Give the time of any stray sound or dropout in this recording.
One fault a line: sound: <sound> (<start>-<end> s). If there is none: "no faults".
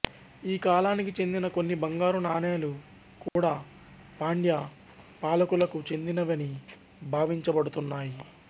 sound: dropout (3.3-3.4 s)